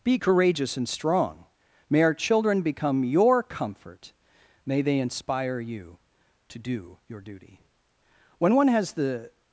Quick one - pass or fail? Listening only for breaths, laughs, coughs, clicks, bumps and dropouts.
pass